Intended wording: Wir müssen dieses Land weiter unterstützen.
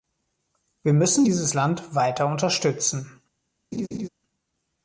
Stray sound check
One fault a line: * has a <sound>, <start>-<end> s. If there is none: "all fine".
* has a laugh, 3.7-4.1 s